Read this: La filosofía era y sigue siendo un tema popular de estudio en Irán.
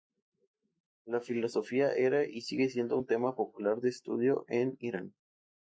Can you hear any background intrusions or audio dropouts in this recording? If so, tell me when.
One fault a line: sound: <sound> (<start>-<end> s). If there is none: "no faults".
no faults